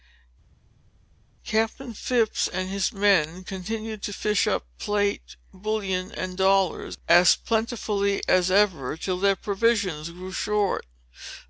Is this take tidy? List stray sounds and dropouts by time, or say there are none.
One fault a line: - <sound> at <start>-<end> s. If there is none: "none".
none